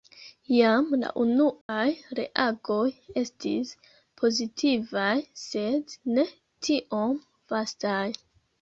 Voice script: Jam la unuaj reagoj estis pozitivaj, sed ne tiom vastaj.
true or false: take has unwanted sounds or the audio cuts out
true